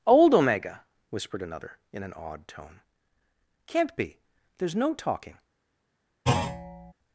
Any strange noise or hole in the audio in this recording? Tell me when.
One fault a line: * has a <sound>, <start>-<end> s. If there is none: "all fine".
* has a thud, 6.2-6.9 s